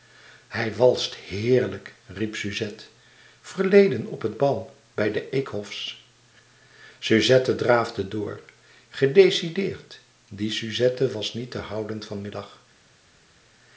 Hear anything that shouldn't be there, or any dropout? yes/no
no